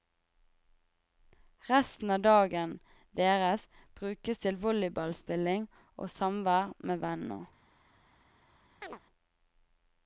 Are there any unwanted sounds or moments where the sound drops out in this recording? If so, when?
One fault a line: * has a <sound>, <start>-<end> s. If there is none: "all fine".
* has a chirp, 8.8-9.0 s